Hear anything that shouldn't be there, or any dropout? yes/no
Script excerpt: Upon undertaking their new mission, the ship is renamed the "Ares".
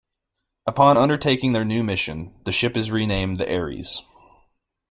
no